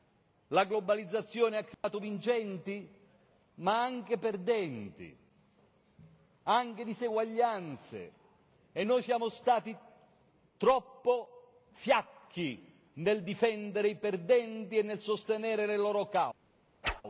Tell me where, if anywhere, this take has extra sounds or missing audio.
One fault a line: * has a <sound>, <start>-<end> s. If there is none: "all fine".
* has a dropout, 1.7-1.8 s
* has a whoosh, 16.8-17.0 s